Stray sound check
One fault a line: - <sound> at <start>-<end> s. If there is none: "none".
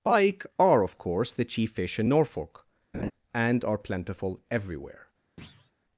- laugh at 2.9-3.1 s
- thud at 5.4-5.7 s